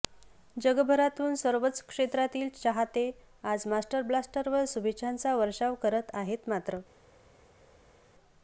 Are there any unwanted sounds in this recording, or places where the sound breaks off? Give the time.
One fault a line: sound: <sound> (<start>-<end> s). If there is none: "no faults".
no faults